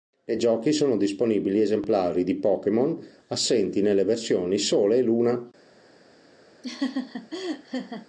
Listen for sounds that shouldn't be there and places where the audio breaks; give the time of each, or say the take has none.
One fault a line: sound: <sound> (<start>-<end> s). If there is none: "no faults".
sound: laugh (6.6-8.1 s)